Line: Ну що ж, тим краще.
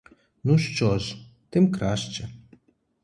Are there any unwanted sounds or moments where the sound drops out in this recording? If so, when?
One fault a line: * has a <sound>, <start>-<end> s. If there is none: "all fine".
all fine